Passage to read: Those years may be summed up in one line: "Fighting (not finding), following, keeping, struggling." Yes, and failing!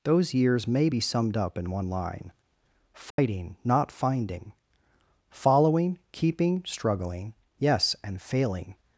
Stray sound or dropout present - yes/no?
yes